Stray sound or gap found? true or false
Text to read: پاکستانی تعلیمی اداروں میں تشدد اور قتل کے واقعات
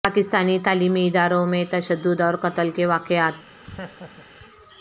true